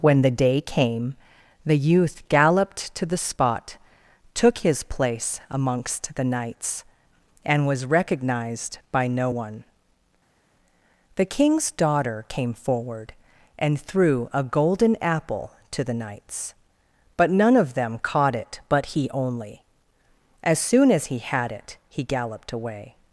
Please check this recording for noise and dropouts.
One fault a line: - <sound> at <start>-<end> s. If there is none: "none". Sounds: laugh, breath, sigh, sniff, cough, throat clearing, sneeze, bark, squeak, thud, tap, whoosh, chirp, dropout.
none